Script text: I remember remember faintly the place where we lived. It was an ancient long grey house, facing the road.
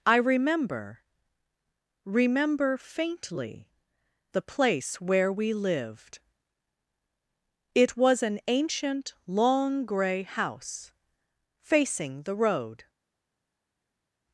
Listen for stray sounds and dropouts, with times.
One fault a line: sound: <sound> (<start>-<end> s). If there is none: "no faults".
no faults